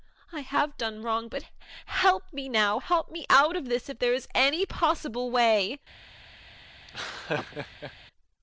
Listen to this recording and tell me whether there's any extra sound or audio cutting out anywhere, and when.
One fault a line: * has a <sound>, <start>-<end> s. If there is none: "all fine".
* has a laugh, 6.9-7.9 s